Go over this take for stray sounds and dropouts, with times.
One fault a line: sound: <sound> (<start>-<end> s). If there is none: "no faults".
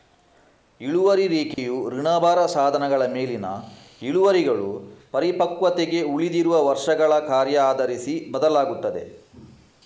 sound: dropout (1.5-1.6 s)